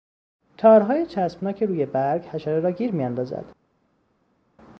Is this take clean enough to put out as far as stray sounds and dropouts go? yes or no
yes